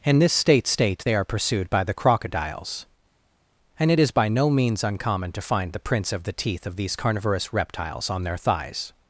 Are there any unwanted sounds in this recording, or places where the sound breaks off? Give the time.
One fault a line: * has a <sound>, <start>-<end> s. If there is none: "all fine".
all fine